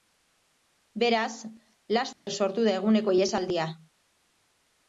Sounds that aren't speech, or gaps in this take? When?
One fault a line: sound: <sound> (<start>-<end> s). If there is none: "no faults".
sound: dropout (2.1-2.3 s)